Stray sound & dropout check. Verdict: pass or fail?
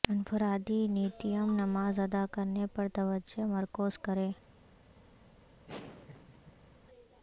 fail